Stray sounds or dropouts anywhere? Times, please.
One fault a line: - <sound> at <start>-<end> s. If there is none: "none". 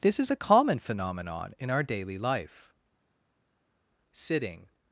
none